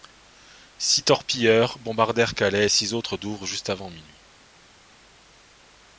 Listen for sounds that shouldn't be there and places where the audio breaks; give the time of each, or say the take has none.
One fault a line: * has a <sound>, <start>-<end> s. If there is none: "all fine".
all fine